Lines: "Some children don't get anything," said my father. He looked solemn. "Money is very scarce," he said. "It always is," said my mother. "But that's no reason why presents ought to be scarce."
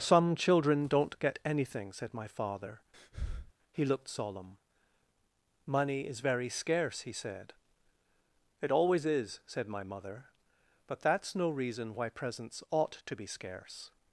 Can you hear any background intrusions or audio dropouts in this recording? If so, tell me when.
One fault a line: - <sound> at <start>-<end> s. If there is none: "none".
- breath at 2.9-3.5 s